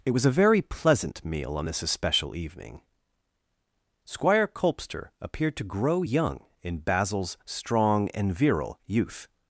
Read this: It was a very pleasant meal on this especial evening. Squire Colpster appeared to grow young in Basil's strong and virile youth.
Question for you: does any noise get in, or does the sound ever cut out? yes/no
no